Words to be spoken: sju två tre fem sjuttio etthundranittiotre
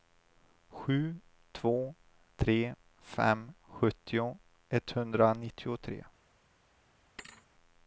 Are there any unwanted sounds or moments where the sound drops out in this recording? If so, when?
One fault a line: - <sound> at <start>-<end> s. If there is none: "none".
- thud at 7.2-7.5 s